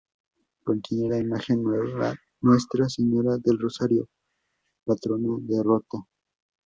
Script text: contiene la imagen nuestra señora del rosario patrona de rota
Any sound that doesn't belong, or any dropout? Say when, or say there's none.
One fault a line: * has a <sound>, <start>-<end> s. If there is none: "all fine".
all fine